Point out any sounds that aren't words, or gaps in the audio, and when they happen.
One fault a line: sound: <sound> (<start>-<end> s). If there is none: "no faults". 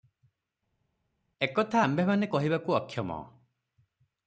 no faults